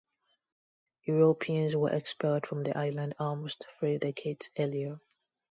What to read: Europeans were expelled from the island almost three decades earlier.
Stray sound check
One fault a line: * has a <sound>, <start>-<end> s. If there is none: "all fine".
all fine